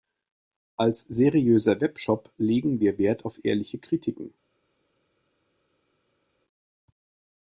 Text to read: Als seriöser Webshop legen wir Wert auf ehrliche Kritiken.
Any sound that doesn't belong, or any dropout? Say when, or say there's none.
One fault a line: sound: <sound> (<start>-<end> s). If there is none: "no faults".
no faults